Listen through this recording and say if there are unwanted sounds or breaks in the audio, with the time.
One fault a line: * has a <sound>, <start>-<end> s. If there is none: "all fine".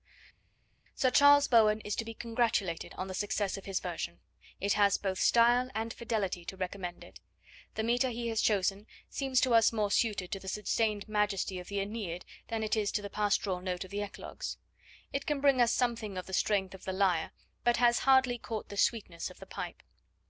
all fine